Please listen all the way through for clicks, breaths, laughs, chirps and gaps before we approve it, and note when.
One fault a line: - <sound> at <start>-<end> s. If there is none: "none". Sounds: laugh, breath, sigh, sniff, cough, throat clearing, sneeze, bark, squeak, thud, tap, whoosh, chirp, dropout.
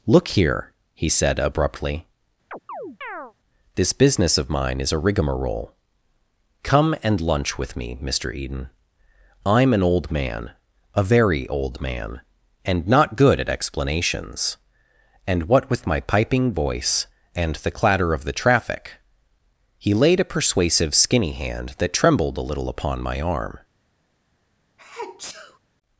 - chirp at 2.5-3.3 s
- sneeze at 24.8-25.6 s